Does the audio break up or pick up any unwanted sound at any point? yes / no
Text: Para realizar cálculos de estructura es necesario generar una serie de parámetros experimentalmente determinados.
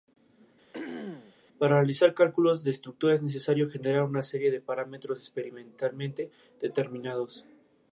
yes